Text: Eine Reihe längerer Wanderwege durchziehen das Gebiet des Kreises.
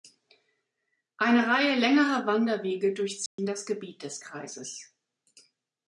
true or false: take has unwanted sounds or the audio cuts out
true